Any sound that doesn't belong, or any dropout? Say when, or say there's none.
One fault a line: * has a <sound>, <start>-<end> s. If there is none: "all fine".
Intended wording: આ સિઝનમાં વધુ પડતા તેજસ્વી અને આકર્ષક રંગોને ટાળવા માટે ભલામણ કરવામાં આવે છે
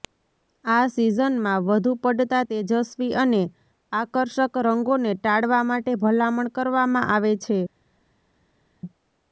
all fine